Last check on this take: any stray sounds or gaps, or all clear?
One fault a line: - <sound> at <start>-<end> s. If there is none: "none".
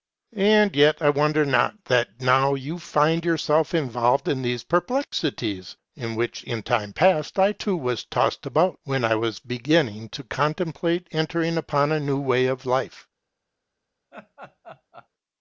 - laugh at 14.1-15.1 s